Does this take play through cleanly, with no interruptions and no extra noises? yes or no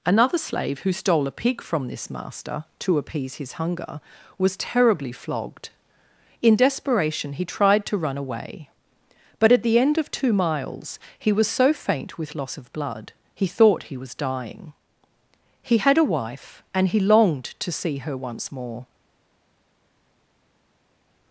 yes